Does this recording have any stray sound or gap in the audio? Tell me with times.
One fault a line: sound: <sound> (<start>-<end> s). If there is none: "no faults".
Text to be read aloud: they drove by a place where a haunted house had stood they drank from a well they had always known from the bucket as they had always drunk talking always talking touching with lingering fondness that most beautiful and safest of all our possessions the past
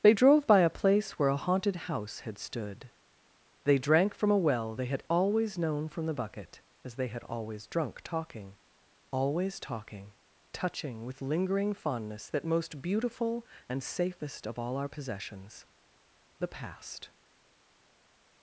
no faults